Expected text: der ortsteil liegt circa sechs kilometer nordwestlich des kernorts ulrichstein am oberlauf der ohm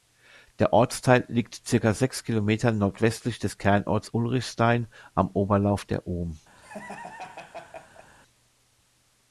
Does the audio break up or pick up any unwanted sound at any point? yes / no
yes